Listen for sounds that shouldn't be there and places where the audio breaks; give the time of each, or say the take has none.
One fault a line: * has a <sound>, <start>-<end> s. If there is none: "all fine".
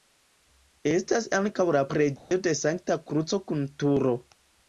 * has a dropout, 2.2-2.3 s